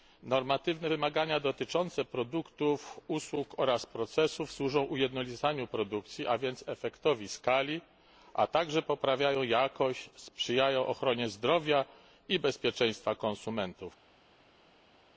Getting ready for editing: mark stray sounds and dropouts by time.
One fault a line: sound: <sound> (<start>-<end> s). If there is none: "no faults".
no faults